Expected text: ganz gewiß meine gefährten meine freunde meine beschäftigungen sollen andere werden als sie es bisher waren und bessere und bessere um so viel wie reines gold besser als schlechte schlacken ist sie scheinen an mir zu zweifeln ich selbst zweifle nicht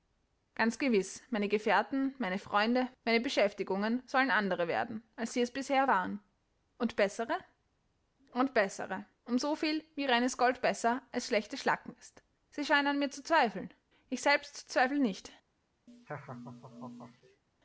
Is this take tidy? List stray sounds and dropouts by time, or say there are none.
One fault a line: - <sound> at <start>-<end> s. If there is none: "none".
- laugh at 15.9-17.4 s